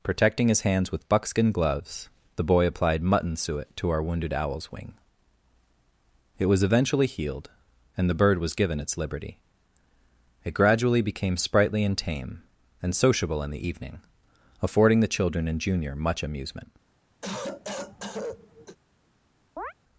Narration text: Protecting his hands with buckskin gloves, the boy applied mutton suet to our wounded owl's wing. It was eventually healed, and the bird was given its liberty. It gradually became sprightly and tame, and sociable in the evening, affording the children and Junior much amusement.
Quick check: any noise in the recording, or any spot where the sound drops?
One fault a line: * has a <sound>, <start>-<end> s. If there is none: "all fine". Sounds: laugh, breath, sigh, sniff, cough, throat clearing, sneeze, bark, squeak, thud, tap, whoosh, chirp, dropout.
* has a cough, 17.2-18.8 s
* has a chirp, 19.6-19.7 s